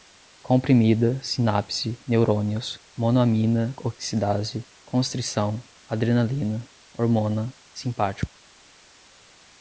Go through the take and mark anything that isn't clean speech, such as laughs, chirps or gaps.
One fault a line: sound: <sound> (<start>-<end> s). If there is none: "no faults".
no faults